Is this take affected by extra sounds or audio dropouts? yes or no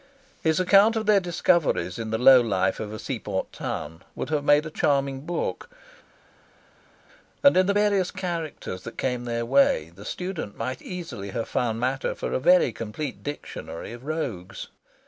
no